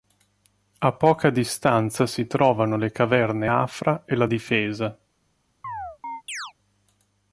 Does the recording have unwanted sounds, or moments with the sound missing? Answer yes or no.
yes